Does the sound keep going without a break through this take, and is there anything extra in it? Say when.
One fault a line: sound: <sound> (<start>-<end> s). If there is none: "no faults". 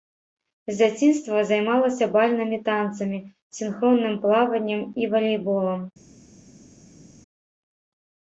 no faults